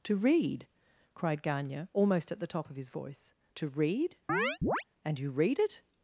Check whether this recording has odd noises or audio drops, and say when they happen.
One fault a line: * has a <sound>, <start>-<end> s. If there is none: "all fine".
* has a chirp, 4.3-4.8 s